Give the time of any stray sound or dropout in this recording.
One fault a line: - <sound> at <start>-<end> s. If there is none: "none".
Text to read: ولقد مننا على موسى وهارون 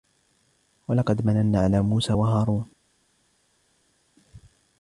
none